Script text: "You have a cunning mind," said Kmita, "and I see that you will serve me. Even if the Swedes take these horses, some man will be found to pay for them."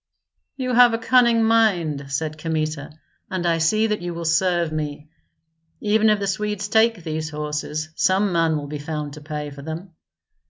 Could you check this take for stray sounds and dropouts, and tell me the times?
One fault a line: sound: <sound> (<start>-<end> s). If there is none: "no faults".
no faults